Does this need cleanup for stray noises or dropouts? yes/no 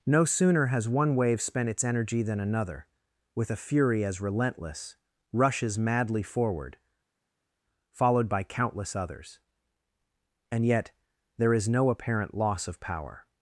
no